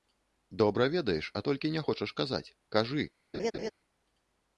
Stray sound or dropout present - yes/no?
yes